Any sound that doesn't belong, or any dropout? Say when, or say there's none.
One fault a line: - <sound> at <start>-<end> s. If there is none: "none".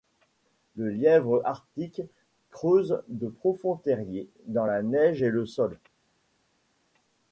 none